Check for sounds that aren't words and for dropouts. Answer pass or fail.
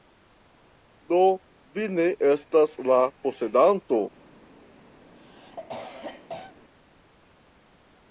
fail